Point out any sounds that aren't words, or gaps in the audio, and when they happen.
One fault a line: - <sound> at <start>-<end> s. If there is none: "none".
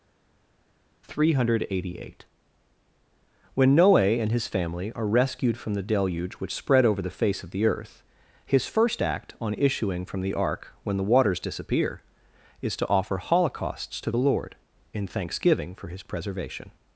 none